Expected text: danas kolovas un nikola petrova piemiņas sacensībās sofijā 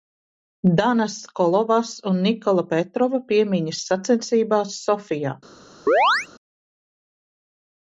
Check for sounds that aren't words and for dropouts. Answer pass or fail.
fail